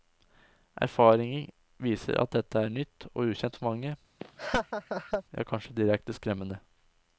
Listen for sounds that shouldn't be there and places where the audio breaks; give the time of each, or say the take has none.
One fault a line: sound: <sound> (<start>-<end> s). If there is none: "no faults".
sound: laugh (4.2-5.2 s)